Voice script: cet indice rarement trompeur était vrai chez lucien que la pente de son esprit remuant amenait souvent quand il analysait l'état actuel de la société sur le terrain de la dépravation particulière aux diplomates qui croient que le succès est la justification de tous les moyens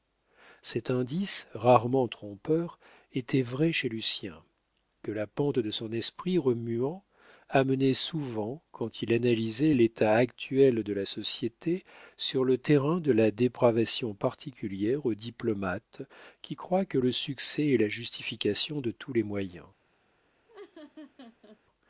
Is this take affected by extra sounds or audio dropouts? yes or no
yes